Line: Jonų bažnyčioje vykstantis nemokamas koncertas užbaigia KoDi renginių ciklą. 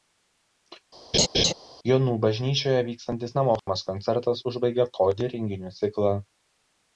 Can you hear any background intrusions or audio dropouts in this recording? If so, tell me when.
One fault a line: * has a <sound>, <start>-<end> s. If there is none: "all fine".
* has a laugh, 1.1-1.5 s
* has a dropout, 3.6-3.7 s